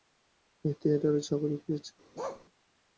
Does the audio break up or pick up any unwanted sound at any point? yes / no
yes